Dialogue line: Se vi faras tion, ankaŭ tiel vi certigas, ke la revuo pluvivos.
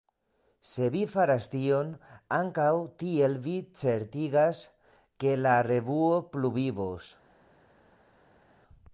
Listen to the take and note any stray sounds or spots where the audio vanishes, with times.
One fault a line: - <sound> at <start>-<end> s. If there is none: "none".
none